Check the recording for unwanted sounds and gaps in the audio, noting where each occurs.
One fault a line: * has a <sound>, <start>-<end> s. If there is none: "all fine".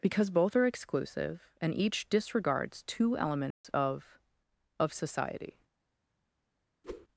* has a dropout, 3.5-3.6 s
* has a whoosh, 6.8-7.1 s